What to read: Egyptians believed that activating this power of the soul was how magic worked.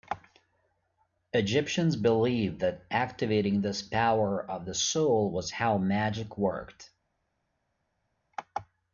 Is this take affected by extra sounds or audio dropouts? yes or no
no